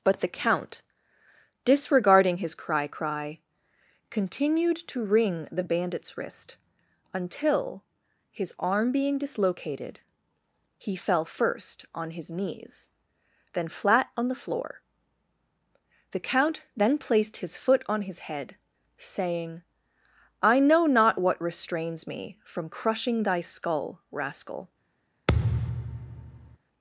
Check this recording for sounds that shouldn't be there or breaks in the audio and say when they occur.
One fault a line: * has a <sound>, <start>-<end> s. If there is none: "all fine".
* has a thud, 25.3-26.6 s